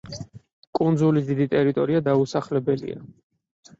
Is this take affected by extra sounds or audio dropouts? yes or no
no